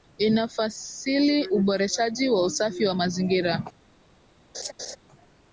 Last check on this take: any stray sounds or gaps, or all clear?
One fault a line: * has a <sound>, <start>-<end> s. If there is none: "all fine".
* has a laugh, 4.5-5.0 s